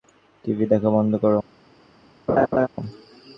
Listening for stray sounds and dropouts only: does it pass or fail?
fail